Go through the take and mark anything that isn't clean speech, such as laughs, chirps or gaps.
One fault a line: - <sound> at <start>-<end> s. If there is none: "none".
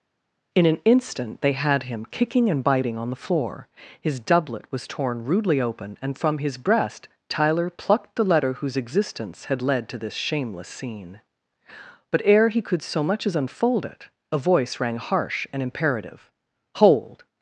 none